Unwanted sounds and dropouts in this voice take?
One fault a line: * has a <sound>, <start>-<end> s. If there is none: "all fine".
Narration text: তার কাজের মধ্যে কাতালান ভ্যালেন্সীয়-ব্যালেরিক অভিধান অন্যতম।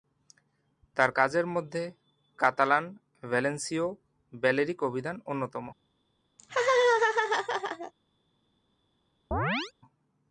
* has a laugh, 6.4-7.9 s
* has a chirp, 9.3-9.7 s